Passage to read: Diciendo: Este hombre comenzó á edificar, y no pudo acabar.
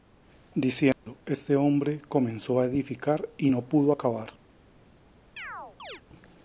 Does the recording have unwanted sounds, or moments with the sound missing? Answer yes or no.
yes